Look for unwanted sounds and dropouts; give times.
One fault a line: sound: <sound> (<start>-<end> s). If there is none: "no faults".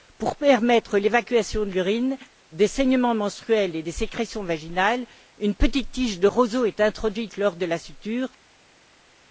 no faults